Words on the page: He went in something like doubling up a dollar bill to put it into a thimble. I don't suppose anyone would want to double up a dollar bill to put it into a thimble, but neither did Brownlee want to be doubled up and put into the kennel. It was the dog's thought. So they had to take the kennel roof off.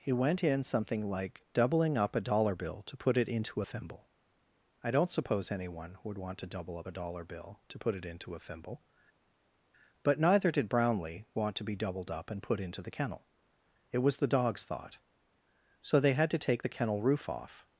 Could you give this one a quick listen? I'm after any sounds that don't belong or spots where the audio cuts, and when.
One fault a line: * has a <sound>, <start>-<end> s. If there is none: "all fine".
all fine